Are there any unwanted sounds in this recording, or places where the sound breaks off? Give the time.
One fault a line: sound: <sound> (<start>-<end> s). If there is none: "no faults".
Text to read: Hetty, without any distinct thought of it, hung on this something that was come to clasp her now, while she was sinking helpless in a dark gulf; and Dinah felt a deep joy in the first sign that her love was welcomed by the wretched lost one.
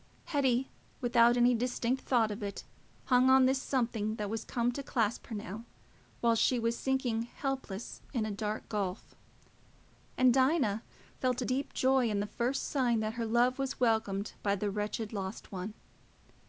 no faults